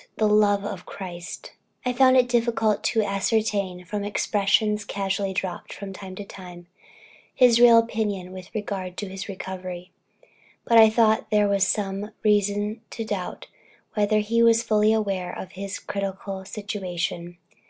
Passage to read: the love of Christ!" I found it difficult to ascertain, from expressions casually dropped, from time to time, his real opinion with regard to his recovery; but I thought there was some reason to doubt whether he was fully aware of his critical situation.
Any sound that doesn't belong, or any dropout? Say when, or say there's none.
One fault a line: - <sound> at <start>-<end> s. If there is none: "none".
none